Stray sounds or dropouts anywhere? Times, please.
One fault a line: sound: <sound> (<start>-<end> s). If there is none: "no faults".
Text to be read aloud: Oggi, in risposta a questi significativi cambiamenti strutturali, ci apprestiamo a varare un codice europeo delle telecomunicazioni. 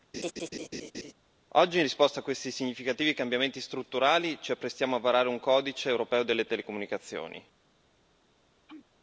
sound: laugh (0.1-1.1 s)
sound: sneeze (8.7-8.9 s)